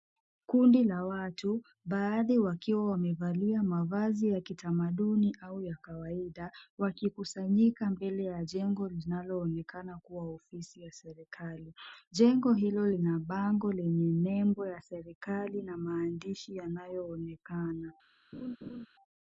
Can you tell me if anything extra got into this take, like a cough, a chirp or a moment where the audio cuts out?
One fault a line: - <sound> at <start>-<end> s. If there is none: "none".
- laugh at 18.3-18.9 s